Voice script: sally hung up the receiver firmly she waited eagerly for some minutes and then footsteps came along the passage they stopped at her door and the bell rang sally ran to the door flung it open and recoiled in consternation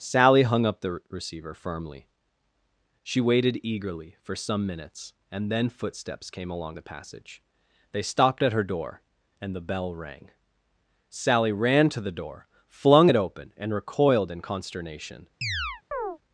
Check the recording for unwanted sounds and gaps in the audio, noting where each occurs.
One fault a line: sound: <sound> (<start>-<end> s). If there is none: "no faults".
sound: chirp (15.4-16.2 s)